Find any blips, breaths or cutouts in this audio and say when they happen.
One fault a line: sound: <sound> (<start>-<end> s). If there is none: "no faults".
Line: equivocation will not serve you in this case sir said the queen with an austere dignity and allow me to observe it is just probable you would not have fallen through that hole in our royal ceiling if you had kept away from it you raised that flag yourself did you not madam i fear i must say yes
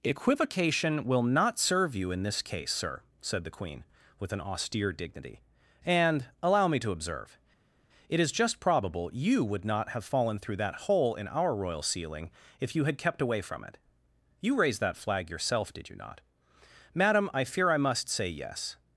no faults